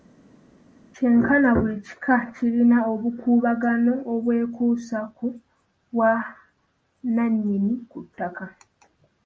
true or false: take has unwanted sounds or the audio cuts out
false